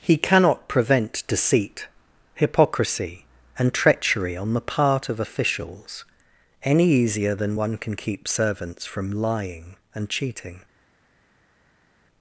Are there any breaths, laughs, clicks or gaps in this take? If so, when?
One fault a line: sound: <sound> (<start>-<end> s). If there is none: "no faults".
no faults